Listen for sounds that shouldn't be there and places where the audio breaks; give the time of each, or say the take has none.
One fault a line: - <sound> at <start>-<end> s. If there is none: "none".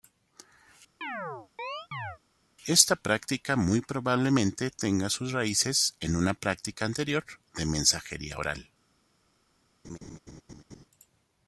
- chirp at 1.0-2.2 s
- laugh at 9.8-10.9 s